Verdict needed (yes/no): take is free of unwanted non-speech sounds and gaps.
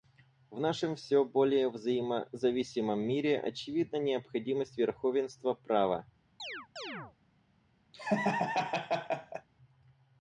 no